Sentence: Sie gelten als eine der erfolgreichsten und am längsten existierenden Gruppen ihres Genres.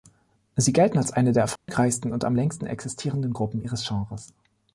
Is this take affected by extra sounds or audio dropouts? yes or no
yes